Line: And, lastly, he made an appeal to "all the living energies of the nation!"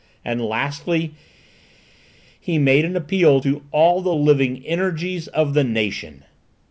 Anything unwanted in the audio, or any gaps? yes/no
no